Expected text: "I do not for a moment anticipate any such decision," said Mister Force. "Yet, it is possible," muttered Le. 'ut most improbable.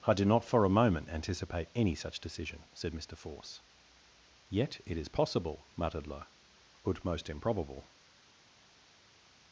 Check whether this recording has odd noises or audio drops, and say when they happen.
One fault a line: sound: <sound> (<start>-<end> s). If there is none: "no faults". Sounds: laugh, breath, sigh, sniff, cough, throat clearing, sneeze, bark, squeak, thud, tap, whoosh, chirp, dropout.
no faults